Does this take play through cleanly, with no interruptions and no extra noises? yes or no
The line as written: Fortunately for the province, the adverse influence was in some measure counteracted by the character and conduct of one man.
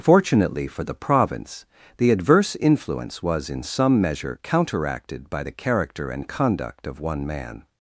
yes